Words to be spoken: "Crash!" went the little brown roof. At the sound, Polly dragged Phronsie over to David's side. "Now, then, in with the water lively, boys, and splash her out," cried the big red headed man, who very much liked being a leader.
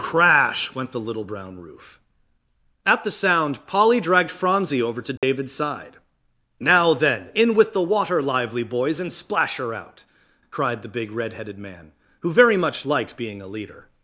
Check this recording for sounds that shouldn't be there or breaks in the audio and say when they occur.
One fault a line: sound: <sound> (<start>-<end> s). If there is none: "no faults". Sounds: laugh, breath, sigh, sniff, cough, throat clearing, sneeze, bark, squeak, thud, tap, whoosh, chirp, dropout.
sound: dropout (5.2-5.2 s)